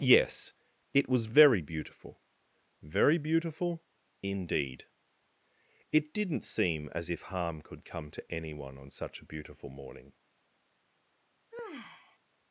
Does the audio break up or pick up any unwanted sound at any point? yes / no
yes